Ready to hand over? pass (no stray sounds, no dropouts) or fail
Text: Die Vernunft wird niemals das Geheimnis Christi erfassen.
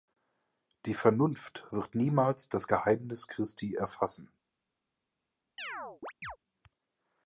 fail